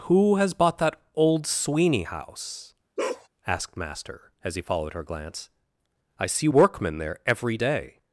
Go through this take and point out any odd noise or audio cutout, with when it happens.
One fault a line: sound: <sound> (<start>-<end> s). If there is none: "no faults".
sound: bark (3.0-3.3 s)